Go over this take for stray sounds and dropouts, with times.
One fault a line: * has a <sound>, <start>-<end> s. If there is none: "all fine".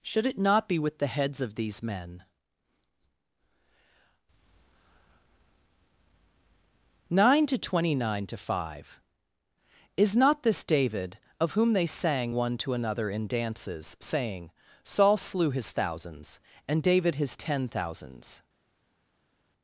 all fine